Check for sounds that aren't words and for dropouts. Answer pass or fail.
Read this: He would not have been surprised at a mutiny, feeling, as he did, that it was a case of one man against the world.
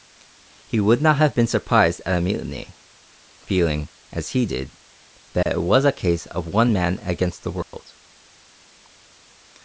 fail